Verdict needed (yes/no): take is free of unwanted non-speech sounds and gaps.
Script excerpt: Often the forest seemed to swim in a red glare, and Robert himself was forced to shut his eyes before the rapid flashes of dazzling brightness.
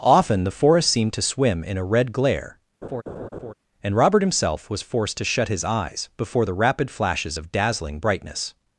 no